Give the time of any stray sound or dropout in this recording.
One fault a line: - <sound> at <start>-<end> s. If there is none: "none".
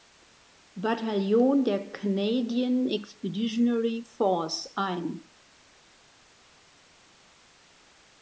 none